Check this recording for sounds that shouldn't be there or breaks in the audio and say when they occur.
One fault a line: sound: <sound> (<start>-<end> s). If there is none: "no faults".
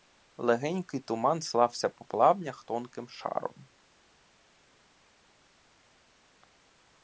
no faults